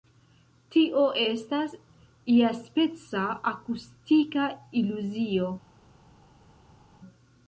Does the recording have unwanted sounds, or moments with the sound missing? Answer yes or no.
no